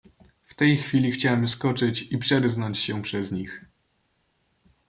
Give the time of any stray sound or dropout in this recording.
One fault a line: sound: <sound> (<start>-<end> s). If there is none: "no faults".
no faults